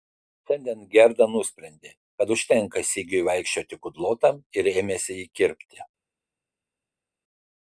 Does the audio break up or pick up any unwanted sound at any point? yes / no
no